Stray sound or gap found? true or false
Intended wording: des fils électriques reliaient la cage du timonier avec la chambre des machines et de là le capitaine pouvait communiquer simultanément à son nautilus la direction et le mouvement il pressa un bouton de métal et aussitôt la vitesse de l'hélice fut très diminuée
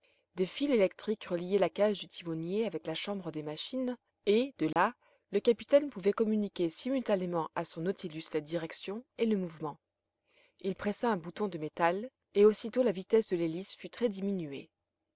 true